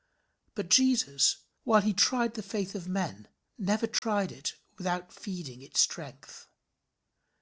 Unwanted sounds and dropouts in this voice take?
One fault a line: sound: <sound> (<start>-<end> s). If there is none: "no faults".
sound: dropout (4.0-4.0 s)